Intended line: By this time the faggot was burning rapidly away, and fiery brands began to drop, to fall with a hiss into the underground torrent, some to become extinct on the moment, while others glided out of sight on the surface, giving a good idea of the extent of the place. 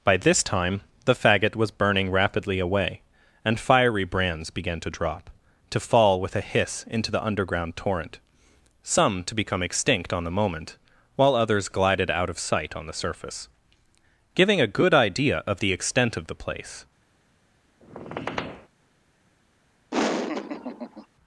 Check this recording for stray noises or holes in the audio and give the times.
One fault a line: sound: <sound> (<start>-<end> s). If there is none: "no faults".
sound: squeak (17.8-18.7 s)
sound: laugh (19.9-21.1 s)